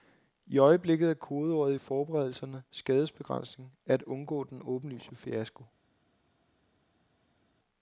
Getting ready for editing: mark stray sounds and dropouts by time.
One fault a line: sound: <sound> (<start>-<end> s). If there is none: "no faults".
no faults